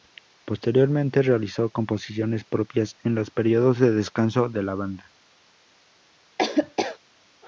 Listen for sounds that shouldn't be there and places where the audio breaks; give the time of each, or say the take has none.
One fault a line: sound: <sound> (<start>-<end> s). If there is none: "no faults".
sound: laugh (6.4-7.0 s)